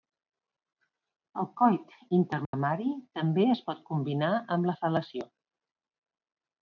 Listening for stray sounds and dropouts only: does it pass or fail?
fail